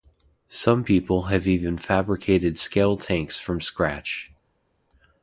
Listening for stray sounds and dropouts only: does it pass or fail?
pass